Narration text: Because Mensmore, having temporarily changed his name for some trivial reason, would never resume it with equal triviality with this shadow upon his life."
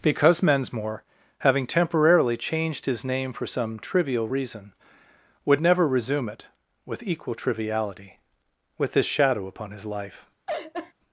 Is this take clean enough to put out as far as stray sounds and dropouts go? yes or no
no